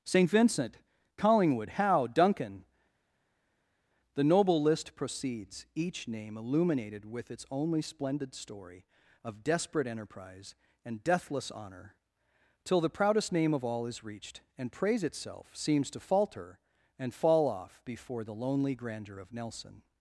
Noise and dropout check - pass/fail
pass